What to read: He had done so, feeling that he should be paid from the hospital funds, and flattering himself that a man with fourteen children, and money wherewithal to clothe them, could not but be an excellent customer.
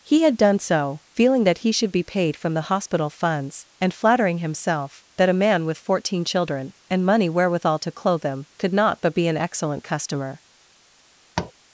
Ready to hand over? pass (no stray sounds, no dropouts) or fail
fail